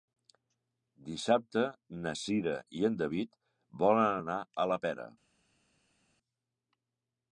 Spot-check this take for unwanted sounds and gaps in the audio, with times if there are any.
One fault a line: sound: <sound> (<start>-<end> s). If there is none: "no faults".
no faults